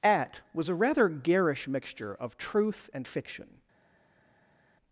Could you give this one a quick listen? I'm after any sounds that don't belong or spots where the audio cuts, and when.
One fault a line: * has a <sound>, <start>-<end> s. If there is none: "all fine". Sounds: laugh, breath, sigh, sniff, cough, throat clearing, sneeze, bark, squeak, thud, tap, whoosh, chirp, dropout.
all fine